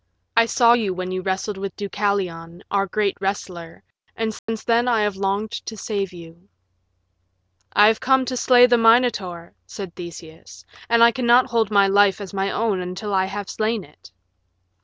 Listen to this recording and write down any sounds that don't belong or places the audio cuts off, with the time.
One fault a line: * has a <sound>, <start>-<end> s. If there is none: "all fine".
* has a dropout, 4.4-4.5 s